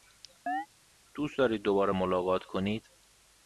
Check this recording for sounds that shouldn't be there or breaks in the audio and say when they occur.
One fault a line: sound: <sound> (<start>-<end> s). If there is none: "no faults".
sound: chirp (0.5-0.7 s)